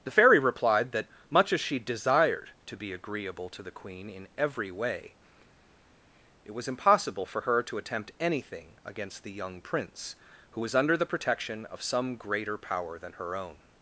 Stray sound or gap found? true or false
false